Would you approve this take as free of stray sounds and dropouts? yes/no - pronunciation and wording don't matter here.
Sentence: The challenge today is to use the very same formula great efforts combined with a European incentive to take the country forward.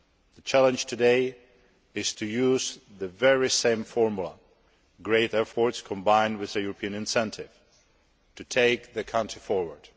yes